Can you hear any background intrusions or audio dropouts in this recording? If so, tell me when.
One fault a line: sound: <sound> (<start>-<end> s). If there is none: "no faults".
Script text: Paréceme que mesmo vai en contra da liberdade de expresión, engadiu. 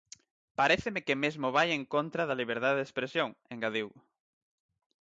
no faults